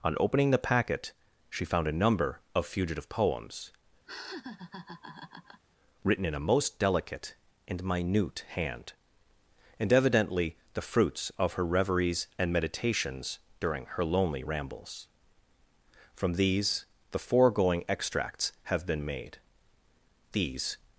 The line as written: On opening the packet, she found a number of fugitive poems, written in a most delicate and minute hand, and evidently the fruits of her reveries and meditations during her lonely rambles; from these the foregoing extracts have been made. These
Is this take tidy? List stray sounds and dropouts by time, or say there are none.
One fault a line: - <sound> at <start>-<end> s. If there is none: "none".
- laugh at 4.1-5.6 s